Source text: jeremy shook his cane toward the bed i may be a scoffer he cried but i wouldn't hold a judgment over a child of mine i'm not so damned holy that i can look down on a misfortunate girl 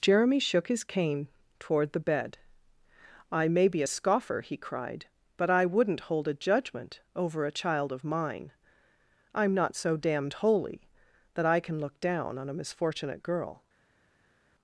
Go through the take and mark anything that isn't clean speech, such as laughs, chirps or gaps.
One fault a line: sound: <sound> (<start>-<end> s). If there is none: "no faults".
no faults